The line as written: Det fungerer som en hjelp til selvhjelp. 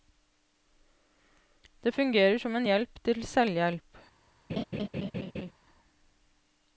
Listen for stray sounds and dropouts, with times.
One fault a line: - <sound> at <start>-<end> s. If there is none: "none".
- laugh at 4.5-5.5 s